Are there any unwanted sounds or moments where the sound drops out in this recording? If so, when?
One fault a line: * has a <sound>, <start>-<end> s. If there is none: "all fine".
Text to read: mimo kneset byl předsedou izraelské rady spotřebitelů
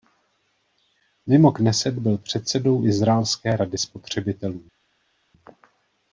all fine